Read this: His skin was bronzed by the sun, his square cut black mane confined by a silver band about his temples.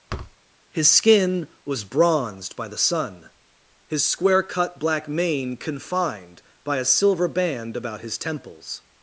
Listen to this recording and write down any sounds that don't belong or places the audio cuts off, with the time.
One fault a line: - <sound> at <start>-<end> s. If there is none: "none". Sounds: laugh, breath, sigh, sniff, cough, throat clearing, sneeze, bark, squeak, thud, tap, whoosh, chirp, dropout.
- thud at 0.1-0.4 s